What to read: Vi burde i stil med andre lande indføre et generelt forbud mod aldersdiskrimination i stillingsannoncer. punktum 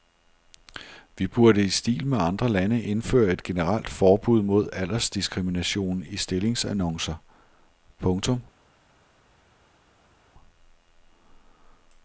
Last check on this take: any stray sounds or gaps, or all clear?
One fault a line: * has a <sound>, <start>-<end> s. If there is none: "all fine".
all fine